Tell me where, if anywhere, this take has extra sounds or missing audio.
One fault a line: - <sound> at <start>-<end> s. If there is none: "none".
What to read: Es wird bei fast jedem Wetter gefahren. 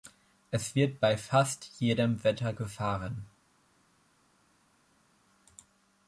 none